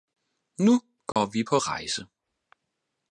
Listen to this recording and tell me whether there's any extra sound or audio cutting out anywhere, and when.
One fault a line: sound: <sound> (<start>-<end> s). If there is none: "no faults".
sound: dropout (1.1-1.2 s)